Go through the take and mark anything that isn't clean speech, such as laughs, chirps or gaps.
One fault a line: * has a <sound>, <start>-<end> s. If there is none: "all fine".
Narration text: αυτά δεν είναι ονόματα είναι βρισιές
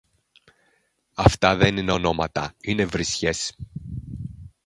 all fine